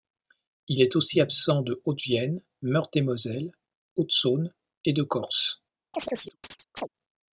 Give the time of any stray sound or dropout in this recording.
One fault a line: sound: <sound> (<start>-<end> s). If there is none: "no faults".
sound: chirp (5.9-6.9 s)